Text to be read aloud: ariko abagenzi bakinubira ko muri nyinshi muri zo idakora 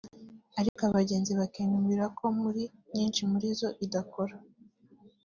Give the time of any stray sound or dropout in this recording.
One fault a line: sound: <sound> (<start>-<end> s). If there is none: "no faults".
sound: dropout (0.7-0.8 s)